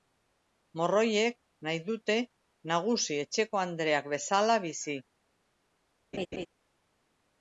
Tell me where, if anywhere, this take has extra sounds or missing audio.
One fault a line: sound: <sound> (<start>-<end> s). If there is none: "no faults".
sound: laugh (6.1-6.5 s)